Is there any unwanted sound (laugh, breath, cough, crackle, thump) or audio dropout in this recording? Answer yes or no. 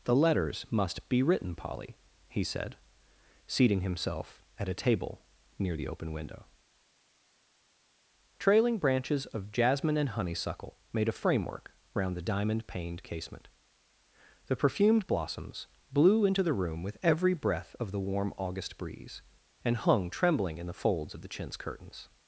no